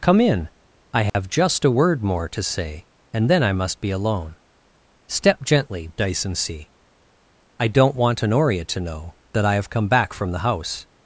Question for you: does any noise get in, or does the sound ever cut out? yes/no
yes